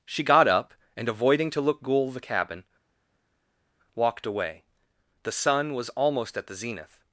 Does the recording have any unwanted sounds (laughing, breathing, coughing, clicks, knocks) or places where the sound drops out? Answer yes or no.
no